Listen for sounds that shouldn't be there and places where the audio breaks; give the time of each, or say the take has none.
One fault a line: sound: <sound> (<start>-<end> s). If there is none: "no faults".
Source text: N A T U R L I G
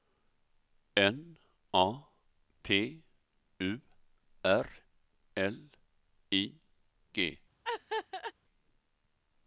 sound: laugh (7.6-8.3 s)